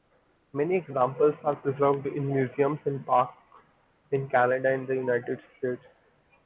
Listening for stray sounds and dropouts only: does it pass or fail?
pass